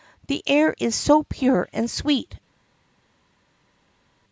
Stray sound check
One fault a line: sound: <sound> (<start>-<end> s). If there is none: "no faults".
no faults